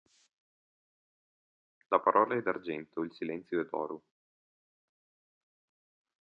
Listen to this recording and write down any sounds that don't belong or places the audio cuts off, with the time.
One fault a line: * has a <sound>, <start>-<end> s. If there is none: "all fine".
all fine